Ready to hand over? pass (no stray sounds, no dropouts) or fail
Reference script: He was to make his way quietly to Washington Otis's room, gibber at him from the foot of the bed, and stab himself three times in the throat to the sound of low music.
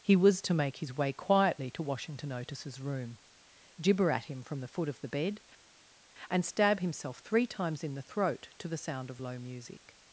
pass